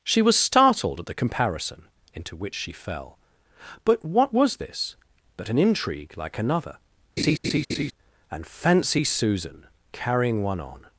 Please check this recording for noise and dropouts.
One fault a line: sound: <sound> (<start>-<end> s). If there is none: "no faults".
sound: laugh (7.2-7.9 s)